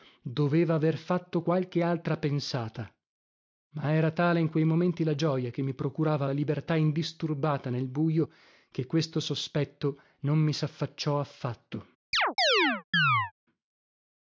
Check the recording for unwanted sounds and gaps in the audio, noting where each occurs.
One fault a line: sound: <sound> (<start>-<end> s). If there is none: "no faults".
sound: chirp (12.1-13.3 s)